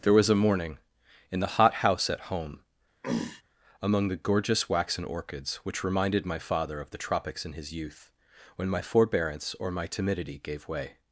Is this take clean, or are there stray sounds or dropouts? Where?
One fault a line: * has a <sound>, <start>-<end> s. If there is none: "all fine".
* has a throat clearing, 3.0-3.4 s